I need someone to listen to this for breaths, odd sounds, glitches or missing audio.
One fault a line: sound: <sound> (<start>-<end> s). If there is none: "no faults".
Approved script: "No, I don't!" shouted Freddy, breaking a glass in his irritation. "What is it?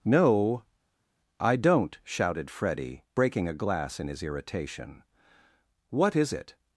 no faults